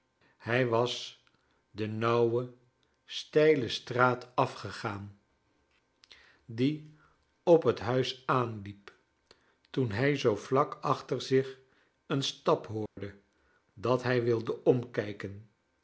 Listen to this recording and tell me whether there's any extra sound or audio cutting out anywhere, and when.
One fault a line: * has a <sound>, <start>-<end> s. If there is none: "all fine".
* has a dropout, 12.9-13.0 s